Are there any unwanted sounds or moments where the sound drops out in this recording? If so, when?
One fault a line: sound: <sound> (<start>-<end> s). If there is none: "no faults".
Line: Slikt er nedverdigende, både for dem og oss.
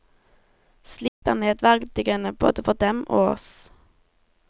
sound: dropout (1.1-1.2 s)